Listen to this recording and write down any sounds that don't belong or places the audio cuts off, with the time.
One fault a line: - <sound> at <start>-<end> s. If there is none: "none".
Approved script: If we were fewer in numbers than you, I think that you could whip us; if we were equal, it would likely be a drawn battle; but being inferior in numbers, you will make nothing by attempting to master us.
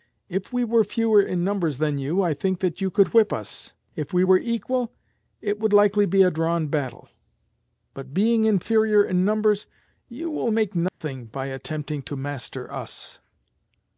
- dropout at 10.9-11.0 s